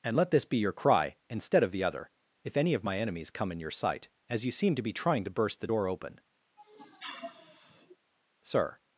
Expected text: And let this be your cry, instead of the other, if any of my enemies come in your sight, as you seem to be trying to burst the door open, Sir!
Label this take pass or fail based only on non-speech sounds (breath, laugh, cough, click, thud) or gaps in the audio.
fail